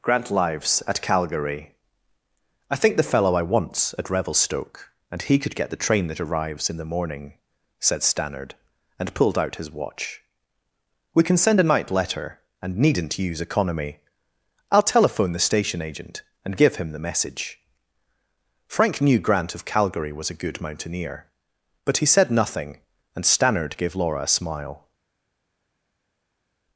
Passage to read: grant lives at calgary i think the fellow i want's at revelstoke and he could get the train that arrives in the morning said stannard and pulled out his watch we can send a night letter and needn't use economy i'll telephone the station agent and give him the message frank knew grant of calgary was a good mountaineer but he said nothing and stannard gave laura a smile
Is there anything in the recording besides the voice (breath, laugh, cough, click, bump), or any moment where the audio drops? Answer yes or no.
no